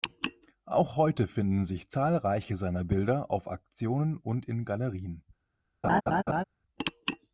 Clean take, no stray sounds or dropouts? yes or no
no